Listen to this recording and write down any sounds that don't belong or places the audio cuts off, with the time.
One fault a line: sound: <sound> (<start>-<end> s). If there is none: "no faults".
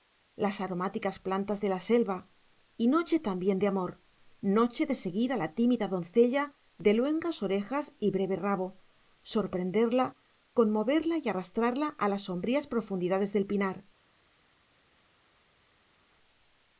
no faults